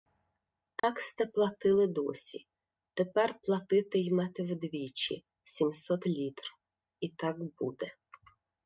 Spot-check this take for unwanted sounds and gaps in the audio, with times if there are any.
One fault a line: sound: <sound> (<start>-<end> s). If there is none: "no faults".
sound: dropout (0.8-0.8 s)